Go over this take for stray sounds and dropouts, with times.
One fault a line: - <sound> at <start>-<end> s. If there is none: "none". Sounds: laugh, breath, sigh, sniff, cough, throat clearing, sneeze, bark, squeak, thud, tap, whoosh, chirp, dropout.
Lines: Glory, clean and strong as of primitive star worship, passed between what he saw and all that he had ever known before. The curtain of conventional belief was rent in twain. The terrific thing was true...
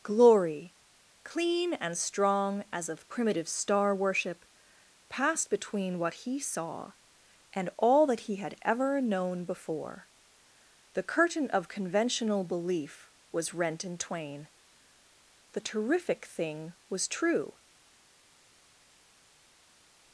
none